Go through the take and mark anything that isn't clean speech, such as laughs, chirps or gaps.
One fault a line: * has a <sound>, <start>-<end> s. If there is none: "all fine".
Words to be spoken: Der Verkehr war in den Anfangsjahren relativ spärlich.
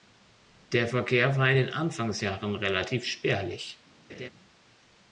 * has a laugh, 4.1-4.3 s